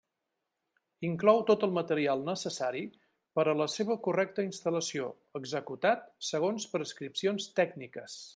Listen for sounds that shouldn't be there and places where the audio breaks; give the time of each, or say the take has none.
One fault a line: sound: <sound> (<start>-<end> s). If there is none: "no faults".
no faults